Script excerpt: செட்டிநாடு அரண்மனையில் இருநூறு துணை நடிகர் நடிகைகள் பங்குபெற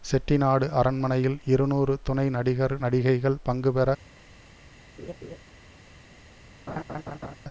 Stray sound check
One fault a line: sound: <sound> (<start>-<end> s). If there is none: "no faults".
sound: laugh (5.0-5.4 s)
sound: laugh (6.7-7.4 s)